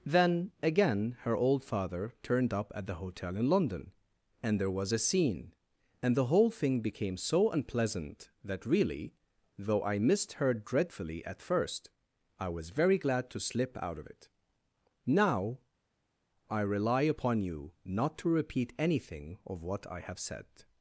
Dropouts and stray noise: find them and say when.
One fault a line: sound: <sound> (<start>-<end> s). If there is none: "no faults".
no faults